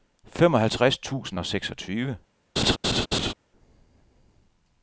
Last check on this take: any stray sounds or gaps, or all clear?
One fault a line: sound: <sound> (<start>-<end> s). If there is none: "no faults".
sound: laugh (2.6-3.3 s)